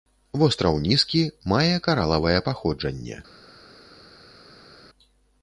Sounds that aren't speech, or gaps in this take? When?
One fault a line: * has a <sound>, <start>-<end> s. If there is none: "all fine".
all fine